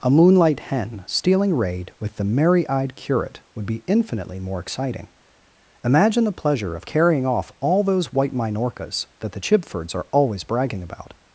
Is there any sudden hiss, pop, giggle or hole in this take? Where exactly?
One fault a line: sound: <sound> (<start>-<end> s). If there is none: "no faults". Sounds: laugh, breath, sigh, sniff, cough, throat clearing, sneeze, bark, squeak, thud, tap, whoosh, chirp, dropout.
no faults